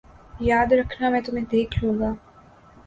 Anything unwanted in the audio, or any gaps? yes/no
no